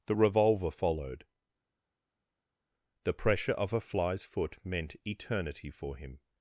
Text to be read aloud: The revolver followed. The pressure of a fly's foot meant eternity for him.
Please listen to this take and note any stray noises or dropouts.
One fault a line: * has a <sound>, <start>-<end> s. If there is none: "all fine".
all fine